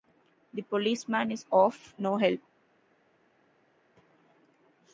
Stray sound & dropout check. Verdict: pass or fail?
pass